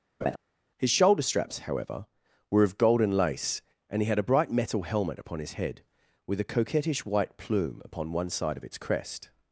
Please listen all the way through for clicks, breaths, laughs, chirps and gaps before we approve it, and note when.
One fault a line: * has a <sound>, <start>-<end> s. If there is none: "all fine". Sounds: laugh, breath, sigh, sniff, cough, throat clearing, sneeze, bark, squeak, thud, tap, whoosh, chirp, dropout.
* has a laugh, 0.2-0.4 s